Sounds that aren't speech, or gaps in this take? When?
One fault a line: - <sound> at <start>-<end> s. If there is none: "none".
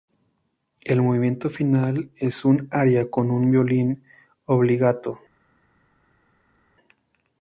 none